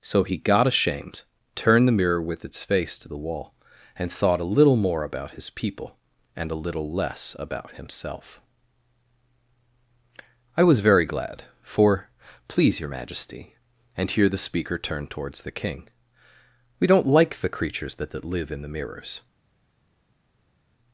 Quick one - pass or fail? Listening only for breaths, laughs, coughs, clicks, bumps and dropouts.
pass